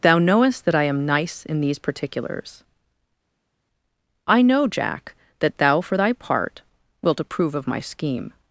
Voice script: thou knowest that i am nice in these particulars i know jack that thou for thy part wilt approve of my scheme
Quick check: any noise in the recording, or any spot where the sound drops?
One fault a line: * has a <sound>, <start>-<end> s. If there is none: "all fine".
all fine